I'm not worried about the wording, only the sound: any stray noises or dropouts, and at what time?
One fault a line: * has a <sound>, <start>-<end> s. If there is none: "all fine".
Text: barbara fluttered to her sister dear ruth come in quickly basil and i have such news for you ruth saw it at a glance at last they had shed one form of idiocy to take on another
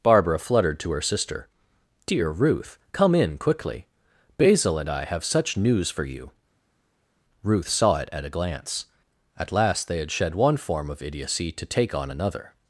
all fine